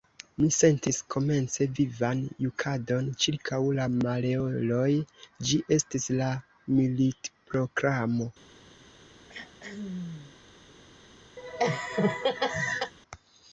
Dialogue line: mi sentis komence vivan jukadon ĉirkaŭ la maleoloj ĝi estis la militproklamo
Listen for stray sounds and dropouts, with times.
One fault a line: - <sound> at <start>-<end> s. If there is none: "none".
- throat clearing at 9.3-10.4 s
- laugh at 11.4-12.9 s